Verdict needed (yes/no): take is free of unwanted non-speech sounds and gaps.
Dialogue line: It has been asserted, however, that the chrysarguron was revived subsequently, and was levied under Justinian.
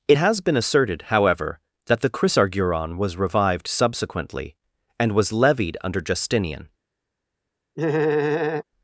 no